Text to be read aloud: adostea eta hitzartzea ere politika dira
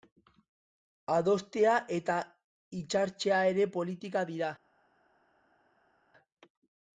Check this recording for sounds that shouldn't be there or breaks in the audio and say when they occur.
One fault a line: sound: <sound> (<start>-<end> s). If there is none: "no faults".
no faults